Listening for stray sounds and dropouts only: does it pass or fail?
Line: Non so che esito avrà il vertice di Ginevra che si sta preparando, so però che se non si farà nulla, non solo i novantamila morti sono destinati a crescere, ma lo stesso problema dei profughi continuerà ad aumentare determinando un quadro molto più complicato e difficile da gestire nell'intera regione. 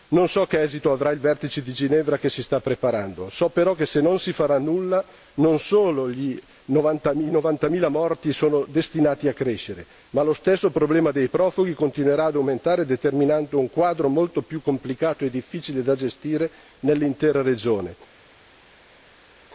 pass